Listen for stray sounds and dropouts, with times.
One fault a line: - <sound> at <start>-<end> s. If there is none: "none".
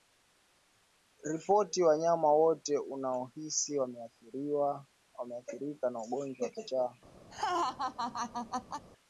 - laugh at 7.3-8.8 s